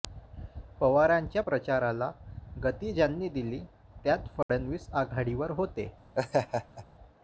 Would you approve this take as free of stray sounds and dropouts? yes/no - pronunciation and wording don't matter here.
no